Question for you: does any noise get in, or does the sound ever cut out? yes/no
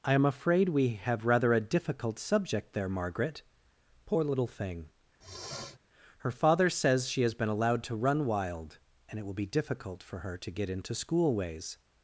yes